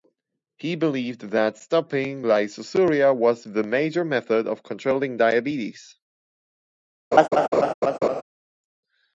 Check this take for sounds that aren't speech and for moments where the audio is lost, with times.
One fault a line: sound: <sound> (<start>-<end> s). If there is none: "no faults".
sound: laugh (7.1-8.2 s)